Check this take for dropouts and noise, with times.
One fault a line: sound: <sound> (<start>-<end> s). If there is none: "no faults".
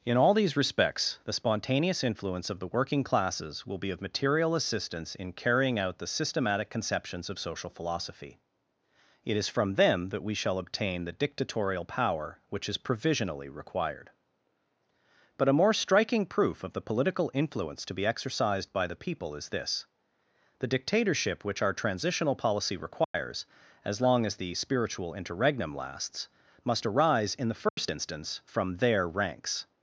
sound: dropout (23.0-23.1 s)
sound: dropout (27.7-27.8 s)